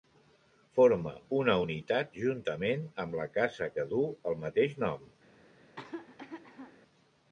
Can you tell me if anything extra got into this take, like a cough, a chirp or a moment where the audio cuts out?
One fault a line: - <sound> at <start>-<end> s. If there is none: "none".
- cough at 5.6-6.8 s